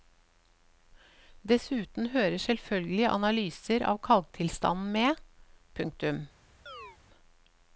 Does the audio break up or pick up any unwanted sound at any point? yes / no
yes